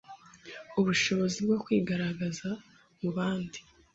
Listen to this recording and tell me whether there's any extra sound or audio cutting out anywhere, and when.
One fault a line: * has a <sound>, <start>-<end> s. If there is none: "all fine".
all fine